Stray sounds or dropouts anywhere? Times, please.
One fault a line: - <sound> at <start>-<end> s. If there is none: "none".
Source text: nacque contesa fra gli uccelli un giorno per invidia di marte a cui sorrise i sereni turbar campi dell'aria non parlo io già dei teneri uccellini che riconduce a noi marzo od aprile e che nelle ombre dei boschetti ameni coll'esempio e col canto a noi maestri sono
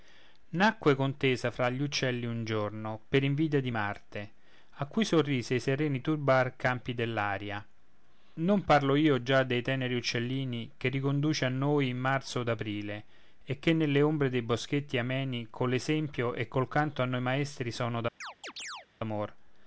- chirp at 18.2-18.9 s